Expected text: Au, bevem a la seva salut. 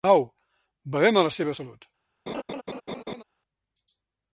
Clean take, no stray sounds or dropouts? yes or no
no